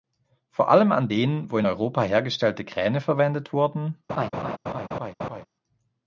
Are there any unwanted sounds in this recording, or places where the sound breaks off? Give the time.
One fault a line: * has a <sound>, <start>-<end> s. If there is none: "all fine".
* has a laugh, 4.1-5.5 s